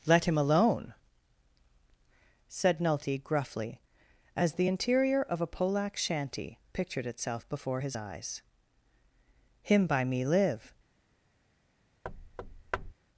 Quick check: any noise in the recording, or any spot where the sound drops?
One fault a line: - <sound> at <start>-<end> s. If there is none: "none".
- thud at 12.0-12.9 s